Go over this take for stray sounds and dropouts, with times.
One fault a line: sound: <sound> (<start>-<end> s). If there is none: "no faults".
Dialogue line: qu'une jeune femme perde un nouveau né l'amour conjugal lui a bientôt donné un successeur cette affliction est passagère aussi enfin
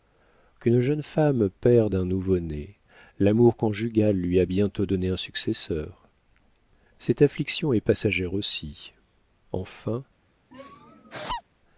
sound: laugh (10.5-11.4 s)